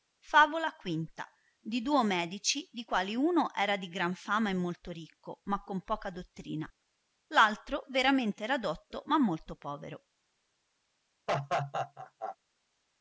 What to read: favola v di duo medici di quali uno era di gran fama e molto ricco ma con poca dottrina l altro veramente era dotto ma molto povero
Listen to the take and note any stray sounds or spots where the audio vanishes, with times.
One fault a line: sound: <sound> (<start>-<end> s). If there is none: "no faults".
sound: laugh (11.3-12.4 s)